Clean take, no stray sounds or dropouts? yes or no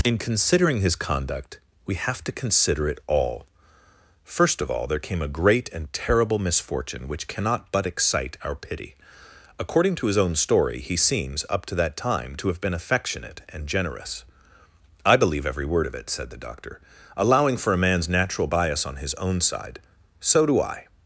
yes